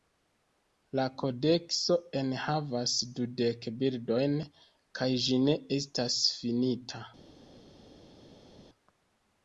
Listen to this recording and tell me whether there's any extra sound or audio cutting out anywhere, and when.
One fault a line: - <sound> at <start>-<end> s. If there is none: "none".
none